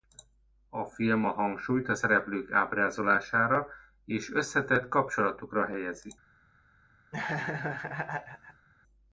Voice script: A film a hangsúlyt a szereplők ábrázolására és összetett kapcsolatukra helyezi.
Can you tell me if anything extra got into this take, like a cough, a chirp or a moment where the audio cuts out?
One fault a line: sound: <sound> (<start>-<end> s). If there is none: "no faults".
sound: laugh (7.1-8.7 s)